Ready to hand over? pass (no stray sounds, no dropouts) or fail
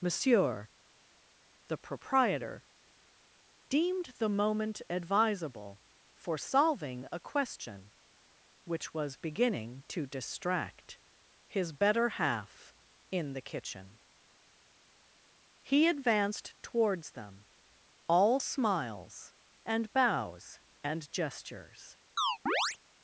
fail